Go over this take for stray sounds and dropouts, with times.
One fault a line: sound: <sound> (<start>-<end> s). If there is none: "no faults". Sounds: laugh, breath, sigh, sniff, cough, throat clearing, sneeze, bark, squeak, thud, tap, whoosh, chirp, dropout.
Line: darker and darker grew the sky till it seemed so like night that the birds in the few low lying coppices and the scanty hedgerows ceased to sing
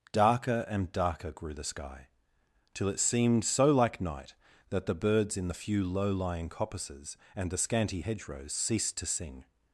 no faults